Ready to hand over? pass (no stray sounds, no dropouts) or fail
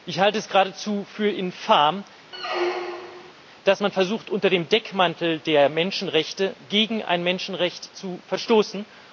fail